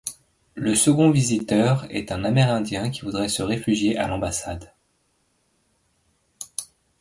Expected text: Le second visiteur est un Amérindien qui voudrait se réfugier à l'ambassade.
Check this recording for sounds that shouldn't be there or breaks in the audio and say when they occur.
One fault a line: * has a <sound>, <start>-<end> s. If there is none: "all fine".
all fine